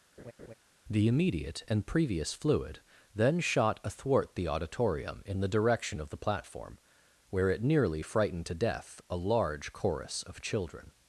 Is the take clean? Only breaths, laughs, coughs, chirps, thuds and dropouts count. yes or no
no